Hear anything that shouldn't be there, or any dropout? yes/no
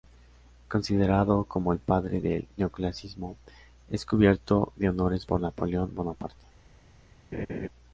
yes